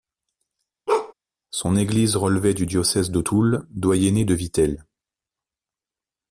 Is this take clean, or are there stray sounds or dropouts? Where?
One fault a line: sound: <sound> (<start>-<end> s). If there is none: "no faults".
sound: bark (0.9-1.1 s)